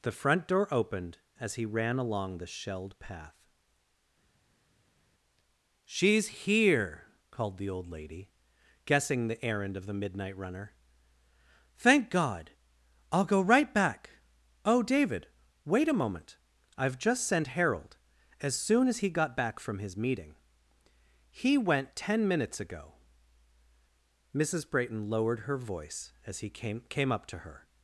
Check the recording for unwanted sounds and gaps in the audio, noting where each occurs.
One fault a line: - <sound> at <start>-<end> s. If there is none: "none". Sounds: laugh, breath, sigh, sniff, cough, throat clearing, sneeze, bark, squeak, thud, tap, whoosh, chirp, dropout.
none